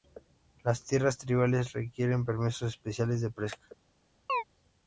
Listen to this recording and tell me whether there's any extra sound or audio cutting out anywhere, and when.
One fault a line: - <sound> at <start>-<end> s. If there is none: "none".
- chirp at 4.3-4.4 s